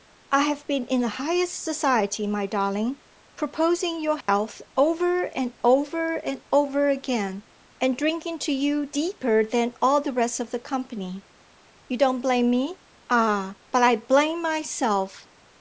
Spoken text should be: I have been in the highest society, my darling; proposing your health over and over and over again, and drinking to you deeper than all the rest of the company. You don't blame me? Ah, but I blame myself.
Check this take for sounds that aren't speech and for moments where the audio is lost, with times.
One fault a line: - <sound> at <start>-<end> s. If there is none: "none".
- dropout at 4.2-4.3 s